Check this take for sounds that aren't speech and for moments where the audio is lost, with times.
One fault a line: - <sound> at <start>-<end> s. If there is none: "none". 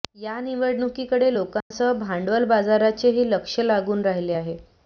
- dropout at 1.6-1.7 s